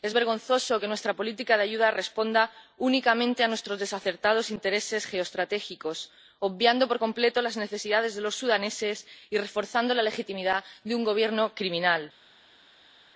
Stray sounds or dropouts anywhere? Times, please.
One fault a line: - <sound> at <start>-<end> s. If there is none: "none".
none